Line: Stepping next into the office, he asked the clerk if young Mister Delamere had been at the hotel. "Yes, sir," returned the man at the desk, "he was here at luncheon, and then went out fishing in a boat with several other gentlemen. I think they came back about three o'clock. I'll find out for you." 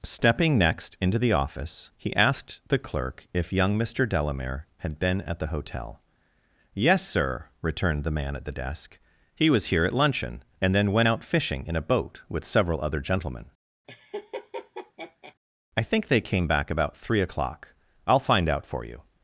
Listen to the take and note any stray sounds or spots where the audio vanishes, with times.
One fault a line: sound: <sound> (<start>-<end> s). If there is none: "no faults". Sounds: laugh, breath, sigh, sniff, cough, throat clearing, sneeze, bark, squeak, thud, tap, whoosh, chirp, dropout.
sound: laugh (13.9-15.3 s)